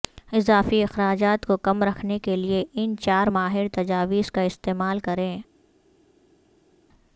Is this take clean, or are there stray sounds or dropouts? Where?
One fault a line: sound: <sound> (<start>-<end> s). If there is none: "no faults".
no faults